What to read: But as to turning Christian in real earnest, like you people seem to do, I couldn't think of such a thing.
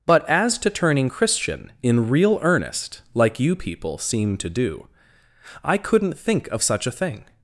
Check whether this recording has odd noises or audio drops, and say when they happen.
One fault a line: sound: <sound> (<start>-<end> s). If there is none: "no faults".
no faults